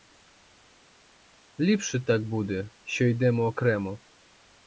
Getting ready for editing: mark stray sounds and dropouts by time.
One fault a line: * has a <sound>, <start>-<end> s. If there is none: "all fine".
all fine